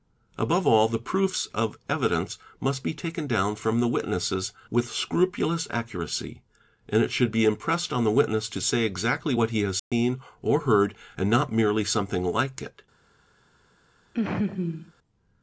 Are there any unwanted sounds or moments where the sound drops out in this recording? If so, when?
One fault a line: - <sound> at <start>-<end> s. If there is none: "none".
- dropout at 9.8-9.9 s
- laugh at 14.1-14.9 s